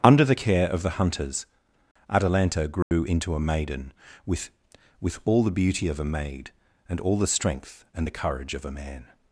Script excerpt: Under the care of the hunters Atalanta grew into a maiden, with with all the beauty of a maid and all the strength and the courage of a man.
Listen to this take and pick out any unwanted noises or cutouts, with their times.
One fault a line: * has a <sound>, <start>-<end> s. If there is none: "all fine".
* has a dropout, 2.8-2.9 s